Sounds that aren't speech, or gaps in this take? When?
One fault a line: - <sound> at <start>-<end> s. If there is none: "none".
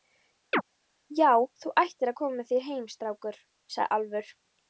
- chirp at 0.5-0.6 s